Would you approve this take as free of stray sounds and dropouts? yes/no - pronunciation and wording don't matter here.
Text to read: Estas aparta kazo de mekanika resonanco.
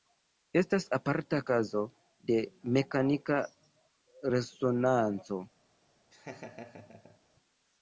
no